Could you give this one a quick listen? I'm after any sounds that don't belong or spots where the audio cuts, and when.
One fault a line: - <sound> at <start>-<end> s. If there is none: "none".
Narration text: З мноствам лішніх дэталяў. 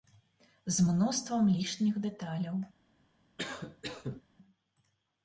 - cough at 3.4-4.2 s